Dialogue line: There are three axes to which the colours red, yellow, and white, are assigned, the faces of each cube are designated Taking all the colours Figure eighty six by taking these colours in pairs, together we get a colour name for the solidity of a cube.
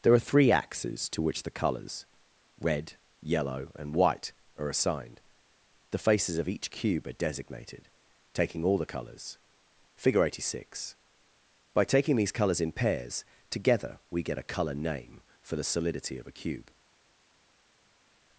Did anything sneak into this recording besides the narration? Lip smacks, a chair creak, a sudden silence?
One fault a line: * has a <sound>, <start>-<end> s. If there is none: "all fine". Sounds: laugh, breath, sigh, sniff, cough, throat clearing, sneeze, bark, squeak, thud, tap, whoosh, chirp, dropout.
all fine